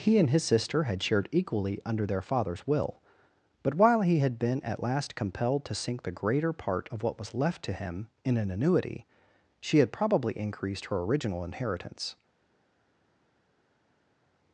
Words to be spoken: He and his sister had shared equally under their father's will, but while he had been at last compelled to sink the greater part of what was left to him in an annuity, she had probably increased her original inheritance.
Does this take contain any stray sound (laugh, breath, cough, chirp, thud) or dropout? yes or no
no